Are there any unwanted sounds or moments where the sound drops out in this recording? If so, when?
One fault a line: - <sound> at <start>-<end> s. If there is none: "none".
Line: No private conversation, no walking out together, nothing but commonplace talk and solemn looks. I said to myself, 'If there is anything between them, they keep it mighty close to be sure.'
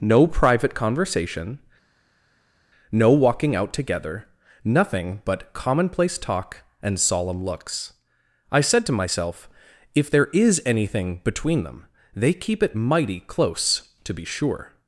none